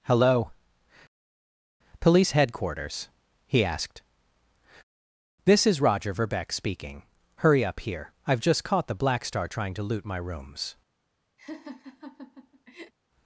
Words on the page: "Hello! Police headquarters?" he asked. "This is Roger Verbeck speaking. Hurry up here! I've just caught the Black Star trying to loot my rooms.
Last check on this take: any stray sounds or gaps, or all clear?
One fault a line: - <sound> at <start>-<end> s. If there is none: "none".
- laugh at 11.4-12.9 s